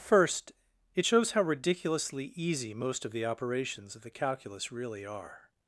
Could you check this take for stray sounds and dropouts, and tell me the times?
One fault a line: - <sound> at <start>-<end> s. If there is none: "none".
none